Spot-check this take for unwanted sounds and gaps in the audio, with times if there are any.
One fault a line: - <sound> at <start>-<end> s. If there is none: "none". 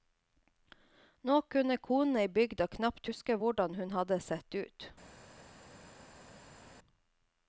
none